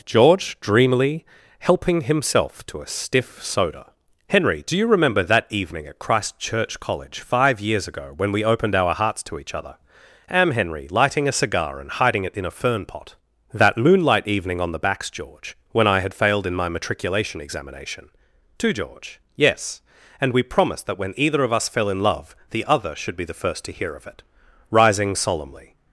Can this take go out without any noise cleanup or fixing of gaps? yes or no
yes